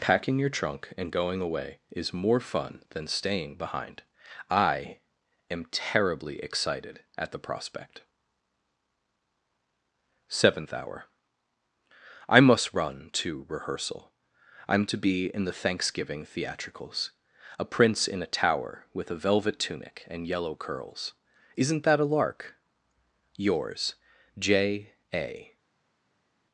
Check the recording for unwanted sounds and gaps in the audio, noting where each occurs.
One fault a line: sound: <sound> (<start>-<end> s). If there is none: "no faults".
no faults